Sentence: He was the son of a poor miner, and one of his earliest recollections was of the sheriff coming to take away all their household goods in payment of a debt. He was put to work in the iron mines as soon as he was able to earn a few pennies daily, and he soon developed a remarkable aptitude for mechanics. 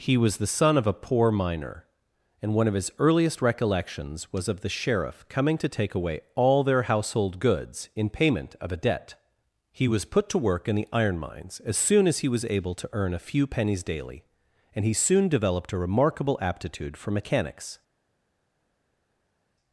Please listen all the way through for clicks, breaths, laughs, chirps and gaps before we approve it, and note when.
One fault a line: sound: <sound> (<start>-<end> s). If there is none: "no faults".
no faults